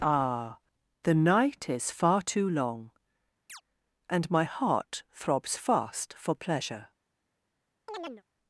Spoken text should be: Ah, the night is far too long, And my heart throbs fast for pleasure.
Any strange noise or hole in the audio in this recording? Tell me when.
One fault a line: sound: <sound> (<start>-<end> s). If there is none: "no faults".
sound: chirp (3.5-3.6 s)
sound: chirp (7.9-8.2 s)